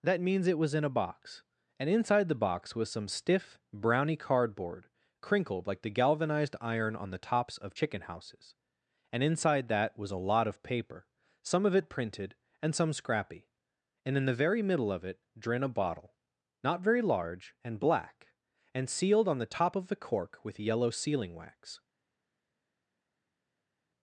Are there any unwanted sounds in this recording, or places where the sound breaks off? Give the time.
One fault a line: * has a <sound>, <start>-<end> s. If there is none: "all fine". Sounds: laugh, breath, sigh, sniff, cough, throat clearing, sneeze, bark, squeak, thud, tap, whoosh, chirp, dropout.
all fine